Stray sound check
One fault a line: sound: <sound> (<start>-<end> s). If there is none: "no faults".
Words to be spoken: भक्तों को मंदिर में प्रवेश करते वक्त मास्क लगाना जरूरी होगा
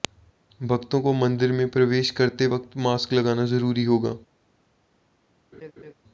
sound: laugh (5.5-5.9 s)